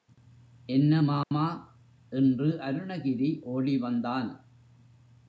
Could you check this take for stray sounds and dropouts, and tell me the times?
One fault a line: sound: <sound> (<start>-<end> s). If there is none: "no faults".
sound: dropout (1.2-1.3 s)